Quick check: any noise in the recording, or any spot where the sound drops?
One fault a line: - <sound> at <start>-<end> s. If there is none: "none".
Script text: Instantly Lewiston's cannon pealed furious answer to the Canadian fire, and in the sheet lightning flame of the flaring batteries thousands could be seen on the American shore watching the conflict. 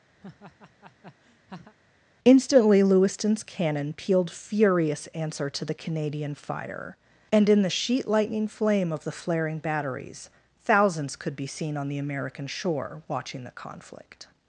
- laugh at 0.2-1.7 s